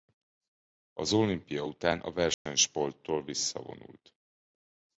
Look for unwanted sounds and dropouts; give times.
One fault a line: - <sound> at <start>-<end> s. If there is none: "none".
- dropout at 2.3-2.5 s